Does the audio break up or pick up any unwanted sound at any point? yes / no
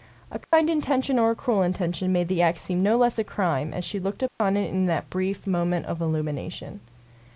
yes